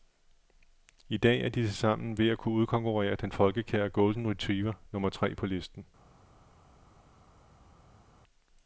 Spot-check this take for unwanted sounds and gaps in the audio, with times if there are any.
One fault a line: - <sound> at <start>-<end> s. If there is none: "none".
none